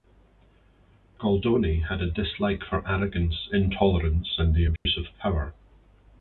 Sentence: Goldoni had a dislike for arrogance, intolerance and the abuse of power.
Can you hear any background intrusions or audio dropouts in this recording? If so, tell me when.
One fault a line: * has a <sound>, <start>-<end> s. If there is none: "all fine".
* has a dropout, 4.8-4.9 s